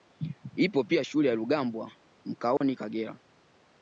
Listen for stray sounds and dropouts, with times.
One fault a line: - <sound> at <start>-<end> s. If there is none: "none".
- dropout at 2.6-2.6 s